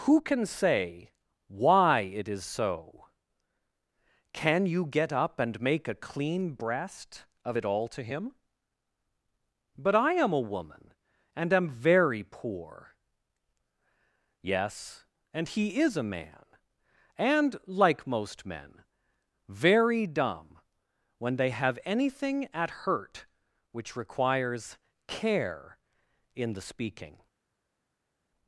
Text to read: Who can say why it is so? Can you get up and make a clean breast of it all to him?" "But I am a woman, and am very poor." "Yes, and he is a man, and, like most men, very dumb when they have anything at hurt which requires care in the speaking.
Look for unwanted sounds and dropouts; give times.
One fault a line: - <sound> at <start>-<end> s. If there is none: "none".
none